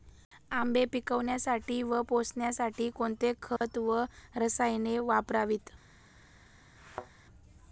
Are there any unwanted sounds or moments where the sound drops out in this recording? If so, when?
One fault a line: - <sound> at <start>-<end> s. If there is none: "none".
- dropout at 3.6-3.6 s
- thud at 6.8-7.1 s